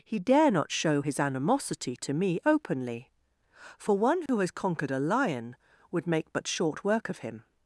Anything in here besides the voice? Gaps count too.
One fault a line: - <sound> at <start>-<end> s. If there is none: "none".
- dropout at 4.3-4.3 s